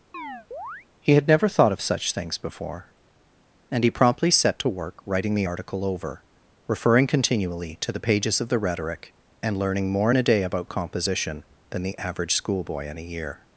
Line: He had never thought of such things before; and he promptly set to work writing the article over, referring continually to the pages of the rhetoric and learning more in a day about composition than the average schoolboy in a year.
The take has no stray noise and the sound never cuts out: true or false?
false